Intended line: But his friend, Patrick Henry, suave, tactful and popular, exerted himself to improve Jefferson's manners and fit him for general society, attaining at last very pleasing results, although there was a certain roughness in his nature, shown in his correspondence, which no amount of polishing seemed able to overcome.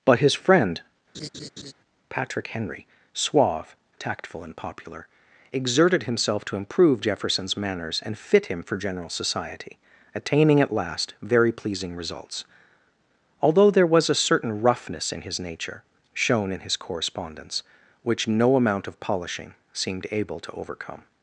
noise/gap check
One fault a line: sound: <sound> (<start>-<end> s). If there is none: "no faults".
sound: laugh (1.1-1.7 s)